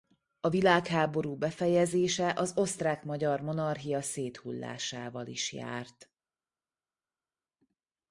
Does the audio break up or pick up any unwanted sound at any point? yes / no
no